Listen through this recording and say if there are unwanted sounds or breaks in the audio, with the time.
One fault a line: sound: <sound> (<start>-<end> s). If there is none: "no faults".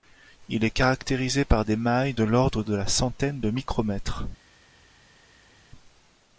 no faults